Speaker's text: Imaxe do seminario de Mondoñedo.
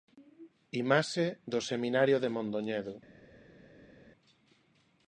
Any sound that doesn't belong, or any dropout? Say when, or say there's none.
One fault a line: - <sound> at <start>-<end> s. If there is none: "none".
none